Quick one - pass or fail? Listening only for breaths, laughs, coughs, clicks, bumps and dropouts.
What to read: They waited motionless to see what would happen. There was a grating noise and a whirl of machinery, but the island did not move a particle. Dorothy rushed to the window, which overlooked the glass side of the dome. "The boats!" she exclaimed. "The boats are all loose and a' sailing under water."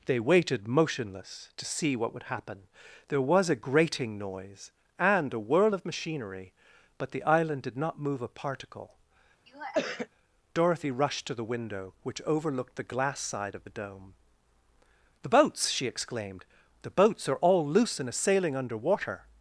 fail